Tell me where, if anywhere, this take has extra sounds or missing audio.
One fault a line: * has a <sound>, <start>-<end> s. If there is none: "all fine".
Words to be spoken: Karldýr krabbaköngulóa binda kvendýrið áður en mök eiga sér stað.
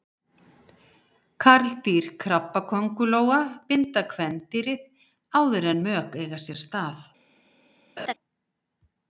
* has a laugh, 8.0-8.1 s